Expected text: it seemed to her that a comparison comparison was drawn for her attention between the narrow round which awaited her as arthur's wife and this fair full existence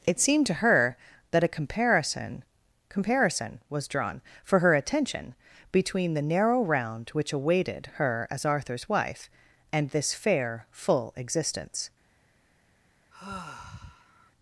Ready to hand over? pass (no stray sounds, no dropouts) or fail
fail